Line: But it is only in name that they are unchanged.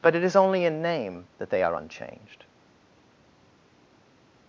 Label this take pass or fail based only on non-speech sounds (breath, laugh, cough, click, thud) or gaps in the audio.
pass